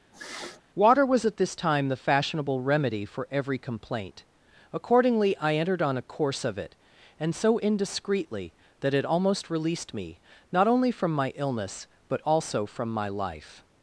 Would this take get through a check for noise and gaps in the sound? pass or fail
fail